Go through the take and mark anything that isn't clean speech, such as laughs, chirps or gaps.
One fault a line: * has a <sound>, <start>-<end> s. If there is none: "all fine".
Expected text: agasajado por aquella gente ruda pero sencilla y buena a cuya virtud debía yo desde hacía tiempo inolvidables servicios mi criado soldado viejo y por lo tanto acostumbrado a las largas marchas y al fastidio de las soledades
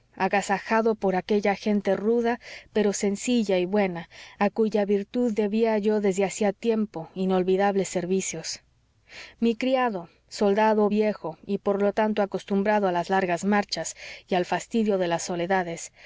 all fine